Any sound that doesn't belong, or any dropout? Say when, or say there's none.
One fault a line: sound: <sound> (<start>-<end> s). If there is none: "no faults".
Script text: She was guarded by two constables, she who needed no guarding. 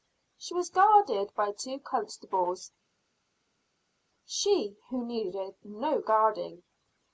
no faults